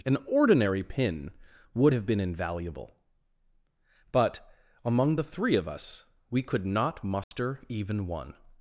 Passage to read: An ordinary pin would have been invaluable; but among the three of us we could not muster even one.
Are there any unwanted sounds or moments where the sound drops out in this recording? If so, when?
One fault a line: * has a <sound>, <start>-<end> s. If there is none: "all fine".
* has a dropout, 7.2-7.3 s